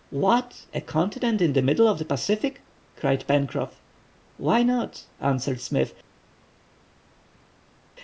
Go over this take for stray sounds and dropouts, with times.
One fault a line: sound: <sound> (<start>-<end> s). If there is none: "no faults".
no faults